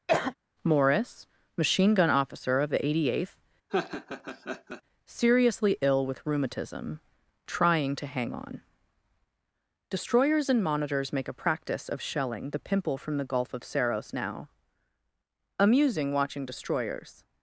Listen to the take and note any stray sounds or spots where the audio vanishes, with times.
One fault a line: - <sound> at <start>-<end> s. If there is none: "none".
- cough at 0.1-0.3 s
- laugh at 3.7-4.8 s